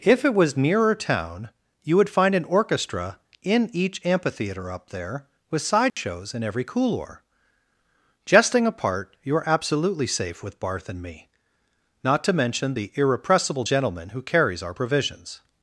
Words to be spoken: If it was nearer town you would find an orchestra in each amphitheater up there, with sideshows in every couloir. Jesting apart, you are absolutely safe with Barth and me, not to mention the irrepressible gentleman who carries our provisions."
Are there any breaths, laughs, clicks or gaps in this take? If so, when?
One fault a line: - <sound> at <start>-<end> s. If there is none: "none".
- dropout at 5.9-6.0 s